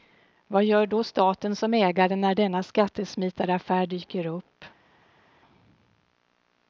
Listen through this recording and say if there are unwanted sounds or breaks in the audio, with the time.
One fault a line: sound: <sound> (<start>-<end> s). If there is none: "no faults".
no faults